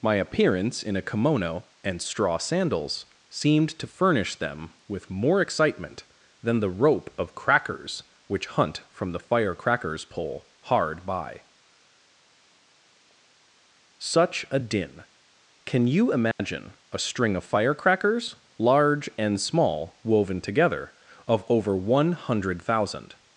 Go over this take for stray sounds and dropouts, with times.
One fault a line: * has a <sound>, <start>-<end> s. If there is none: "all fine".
* has a dropout, 16.3-16.4 s